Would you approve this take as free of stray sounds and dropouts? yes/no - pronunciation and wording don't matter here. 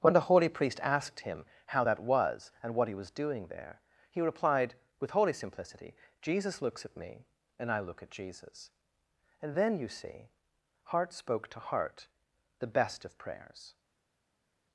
yes